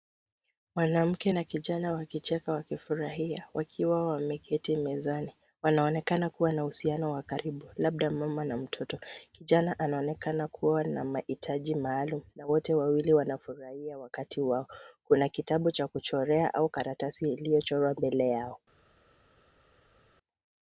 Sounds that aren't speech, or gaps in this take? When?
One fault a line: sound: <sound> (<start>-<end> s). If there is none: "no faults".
no faults